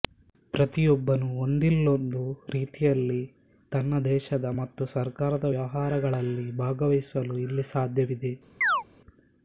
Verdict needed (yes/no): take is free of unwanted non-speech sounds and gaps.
no